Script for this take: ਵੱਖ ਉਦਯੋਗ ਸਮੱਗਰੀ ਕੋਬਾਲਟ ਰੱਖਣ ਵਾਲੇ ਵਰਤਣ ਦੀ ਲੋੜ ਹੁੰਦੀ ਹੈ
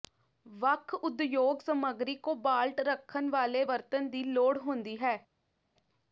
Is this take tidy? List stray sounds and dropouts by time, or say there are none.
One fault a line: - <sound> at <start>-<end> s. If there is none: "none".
none